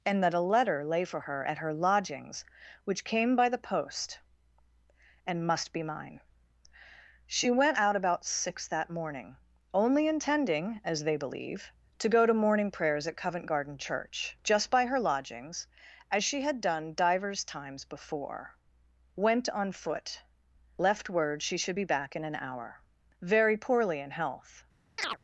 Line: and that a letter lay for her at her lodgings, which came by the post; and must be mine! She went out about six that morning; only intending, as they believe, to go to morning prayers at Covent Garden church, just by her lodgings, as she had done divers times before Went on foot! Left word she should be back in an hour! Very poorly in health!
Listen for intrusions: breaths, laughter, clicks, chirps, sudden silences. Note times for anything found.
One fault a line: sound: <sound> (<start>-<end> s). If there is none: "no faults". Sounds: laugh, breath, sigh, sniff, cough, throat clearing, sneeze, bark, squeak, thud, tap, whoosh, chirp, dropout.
sound: chirp (25.0-25.2 s)